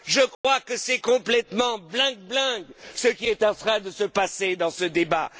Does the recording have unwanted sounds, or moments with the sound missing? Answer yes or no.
yes